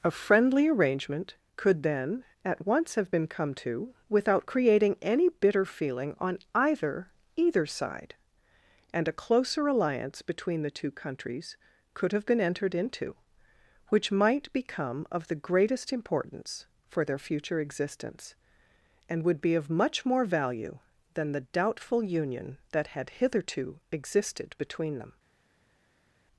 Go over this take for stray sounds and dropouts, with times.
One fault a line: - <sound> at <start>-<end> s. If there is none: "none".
none